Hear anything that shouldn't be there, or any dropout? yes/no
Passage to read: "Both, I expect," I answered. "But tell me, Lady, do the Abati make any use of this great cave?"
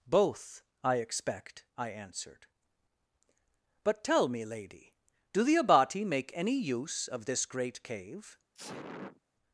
yes